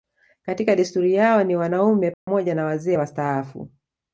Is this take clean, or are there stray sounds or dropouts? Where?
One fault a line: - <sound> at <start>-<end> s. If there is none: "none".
- dropout at 2.1-2.3 s